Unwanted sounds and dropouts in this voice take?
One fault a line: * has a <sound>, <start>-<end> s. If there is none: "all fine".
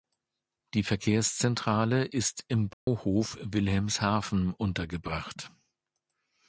* has a dropout, 2.7-2.9 s